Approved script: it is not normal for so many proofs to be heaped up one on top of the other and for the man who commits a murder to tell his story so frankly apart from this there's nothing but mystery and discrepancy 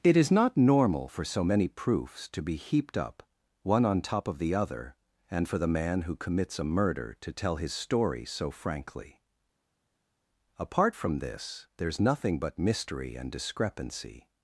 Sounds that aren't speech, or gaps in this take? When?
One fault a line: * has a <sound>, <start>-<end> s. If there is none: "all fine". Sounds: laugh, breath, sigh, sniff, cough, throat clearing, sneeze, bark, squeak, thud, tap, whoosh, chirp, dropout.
all fine